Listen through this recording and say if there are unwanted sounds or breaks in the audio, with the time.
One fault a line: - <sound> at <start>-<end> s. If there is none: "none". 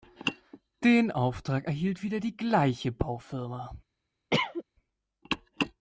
- cough at 4.3-4.6 s